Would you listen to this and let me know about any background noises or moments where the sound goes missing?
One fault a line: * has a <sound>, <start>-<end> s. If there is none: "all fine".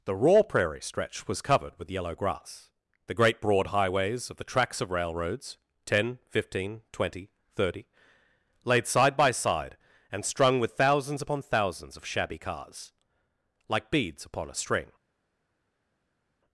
all fine